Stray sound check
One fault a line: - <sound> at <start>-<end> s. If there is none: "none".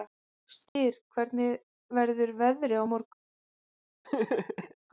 - dropout at 0.7-0.8 s
- laugh at 4.0-4.7 s